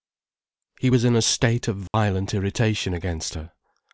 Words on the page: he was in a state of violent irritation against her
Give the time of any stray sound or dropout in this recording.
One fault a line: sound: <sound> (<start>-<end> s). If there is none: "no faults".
sound: dropout (1.9-1.9 s)